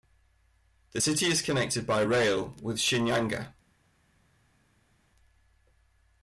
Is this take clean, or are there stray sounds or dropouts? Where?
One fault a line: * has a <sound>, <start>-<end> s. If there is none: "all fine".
all fine